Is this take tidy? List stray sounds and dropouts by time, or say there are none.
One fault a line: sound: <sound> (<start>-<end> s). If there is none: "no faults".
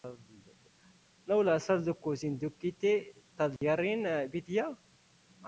sound: dropout (3.6-3.6 s)